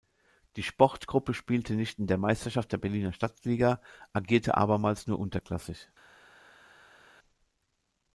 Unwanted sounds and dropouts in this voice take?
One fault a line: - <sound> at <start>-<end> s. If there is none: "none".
none